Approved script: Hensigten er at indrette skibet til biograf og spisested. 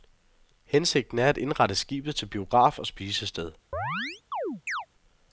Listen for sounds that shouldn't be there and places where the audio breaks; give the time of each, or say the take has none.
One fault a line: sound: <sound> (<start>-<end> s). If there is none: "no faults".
sound: chirp (3.7-4.9 s)